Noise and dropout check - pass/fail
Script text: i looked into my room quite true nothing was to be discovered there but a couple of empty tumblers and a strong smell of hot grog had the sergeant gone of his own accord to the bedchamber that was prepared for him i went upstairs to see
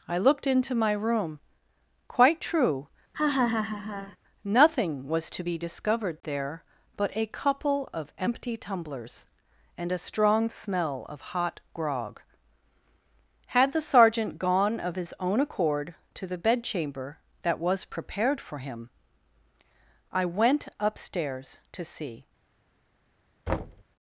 fail